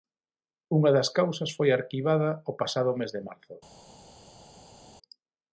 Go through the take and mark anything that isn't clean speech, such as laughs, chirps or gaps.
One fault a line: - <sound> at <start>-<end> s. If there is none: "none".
none